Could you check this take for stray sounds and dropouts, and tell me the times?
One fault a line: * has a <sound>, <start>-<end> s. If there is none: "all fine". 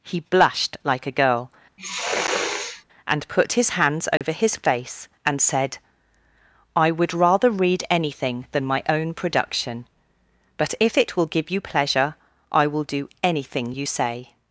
* has a sniff, 1.8-2.8 s
* has a dropout, 4.2-4.2 s